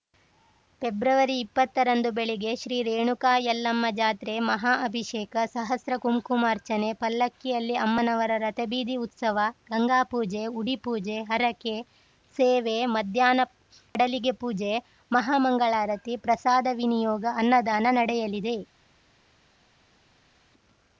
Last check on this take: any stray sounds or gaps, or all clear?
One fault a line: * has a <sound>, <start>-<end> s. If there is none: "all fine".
all fine